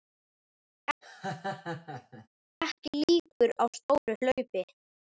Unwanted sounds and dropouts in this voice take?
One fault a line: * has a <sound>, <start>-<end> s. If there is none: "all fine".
* has a laugh, 1.0-2.3 s
* has a dropout, 4.0-4.1 s